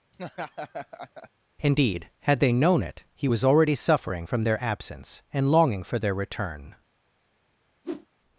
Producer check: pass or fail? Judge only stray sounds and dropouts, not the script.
fail